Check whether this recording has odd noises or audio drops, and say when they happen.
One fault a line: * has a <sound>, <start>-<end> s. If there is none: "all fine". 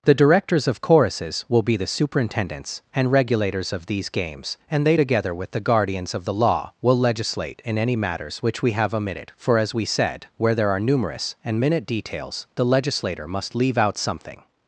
all fine